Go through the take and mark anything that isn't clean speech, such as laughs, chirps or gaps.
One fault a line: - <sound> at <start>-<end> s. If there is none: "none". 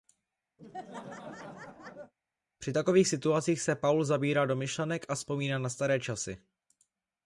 - laugh at 0.6-2.1 s